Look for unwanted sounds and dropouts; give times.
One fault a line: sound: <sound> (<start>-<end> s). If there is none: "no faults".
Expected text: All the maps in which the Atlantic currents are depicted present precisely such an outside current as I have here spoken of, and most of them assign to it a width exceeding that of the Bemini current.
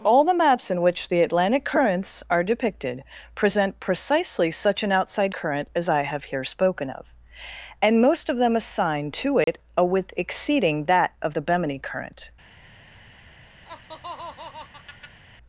sound: dropout (9.4-9.5 s)
sound: laugh (13.6-15.2 s)